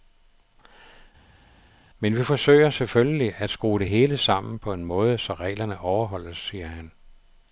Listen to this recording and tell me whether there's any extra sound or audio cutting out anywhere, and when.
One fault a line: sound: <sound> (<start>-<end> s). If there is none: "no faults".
no faults